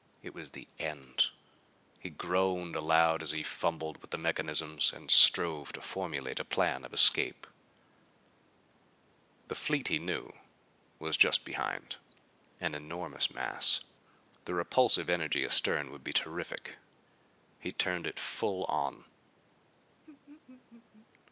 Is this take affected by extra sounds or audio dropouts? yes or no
yes